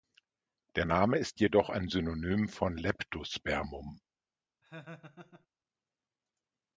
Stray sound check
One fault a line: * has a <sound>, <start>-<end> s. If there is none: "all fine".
* has a laugh, 4.6-5.5 s